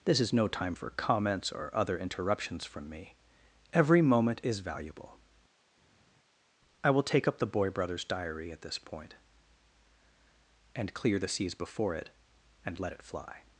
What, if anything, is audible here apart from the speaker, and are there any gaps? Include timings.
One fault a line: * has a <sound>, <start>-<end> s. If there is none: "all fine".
all fine